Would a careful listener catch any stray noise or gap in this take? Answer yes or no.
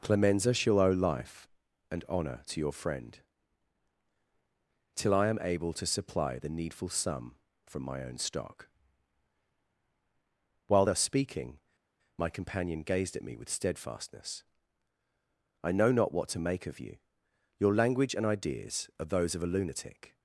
no